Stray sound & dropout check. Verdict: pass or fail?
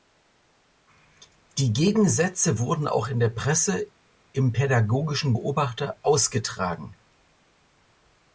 pass